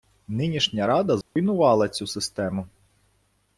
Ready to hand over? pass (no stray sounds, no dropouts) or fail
fail